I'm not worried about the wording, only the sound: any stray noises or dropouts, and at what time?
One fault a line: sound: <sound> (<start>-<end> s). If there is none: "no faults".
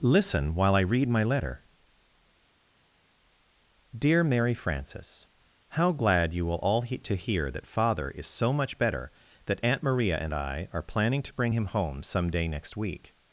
no faults